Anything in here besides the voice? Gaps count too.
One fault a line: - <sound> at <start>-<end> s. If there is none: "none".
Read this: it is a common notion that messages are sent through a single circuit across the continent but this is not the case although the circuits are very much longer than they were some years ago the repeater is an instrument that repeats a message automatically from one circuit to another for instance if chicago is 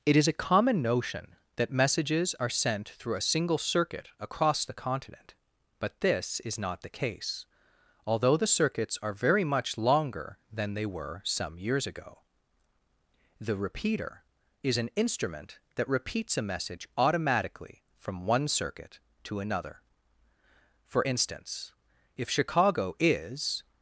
none